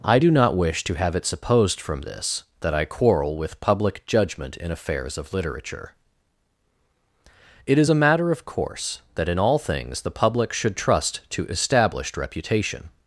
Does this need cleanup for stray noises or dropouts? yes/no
no